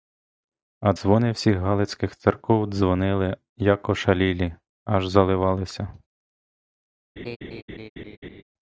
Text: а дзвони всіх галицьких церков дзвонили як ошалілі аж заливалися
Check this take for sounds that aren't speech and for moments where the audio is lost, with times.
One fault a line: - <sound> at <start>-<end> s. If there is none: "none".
- laugh at 7.2-8.4 s